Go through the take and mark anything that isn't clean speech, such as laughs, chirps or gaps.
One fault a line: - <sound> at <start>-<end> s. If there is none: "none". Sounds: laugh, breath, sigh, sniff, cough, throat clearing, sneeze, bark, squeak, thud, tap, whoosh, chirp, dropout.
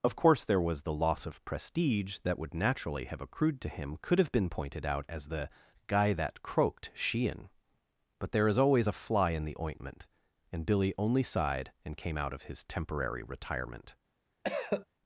- cough at 14.4-14.9 s